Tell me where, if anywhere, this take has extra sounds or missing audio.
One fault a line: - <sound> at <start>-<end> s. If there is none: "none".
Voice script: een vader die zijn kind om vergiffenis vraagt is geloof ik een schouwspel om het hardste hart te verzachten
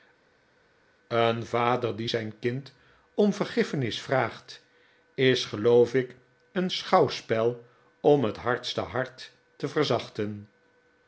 none